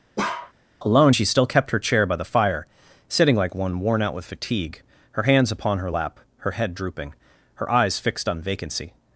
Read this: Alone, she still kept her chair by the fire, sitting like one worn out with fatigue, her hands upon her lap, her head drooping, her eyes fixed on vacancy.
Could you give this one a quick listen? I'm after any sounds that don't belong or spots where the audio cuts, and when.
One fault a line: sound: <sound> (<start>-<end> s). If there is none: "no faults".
sound: bark (0.2-0.5 s)